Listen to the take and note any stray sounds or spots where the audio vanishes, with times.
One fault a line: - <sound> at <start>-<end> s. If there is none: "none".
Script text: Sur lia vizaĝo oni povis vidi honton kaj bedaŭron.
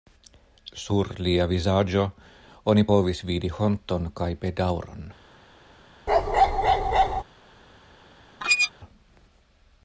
- bark at 6.1-7.2 s
- squeak at 8.4-8.7 s